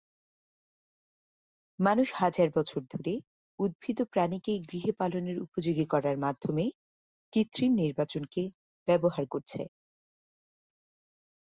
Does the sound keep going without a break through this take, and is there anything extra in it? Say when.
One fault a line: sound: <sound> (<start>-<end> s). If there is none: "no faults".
no faults